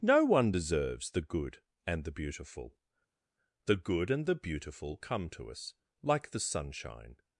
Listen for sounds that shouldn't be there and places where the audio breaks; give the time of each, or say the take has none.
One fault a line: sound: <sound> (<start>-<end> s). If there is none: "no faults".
no faults